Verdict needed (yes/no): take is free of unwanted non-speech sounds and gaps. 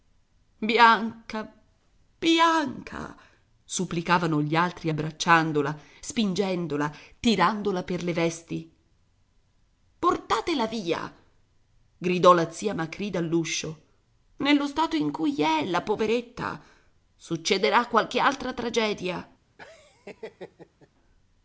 no